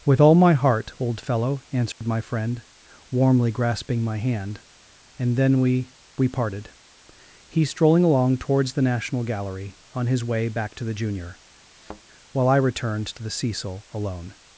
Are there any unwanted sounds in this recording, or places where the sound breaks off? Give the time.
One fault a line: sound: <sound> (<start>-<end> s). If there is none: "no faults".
sound: dropout (1.9-2.0 s)
sound: thud (11.7-12.0 s)